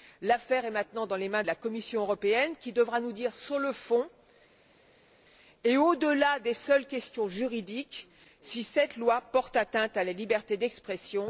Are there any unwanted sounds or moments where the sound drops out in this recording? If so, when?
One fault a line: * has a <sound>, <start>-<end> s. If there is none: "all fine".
all fine